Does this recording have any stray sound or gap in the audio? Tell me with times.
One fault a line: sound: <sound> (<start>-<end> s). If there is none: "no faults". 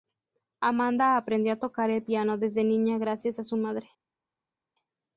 no faults